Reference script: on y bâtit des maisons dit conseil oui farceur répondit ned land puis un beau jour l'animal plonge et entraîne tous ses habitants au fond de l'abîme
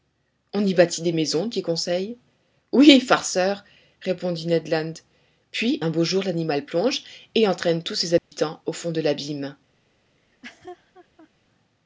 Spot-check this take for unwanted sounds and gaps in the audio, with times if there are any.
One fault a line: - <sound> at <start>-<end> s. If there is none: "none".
- dropout at 8.2-8.3 s
- laugh at 10.2-11.3 s